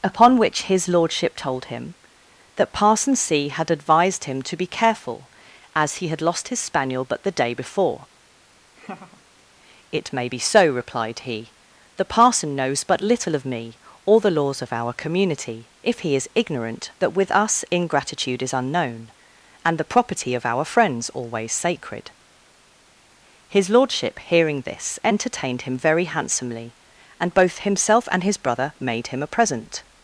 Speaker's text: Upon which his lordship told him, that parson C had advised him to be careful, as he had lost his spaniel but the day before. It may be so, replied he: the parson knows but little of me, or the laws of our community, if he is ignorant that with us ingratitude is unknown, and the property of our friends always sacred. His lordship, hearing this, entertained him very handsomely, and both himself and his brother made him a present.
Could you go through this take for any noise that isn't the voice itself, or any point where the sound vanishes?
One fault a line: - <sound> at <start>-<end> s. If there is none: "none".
- laugh at 8.8-9.2 s